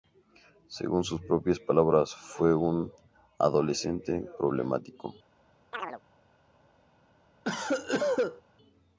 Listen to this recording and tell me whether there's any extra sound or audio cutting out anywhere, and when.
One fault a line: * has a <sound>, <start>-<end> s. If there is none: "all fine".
* has a chirp, 5.7-6.0 s
* has a cough, 7.4-8.4 s